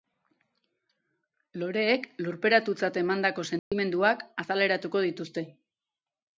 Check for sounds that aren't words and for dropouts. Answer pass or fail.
fail